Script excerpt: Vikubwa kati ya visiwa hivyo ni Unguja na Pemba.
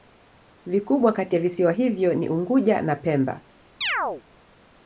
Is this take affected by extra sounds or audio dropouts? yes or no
yes